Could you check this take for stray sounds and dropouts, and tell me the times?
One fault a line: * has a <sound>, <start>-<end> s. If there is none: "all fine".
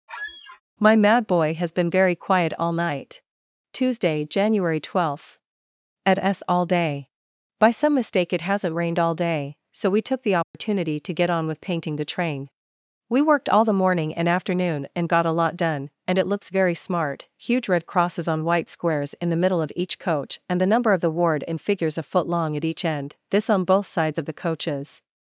* has a squeak, 0.1-0.6 s
* has a dropout, 10.4-10.5 s